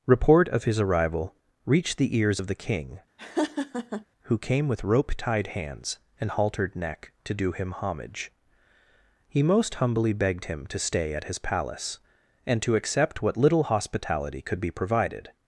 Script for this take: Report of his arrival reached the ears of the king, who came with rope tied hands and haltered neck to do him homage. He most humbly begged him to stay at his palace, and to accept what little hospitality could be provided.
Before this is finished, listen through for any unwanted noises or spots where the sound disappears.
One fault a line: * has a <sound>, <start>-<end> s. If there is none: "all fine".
* has a laugh, 3.2-4.0 s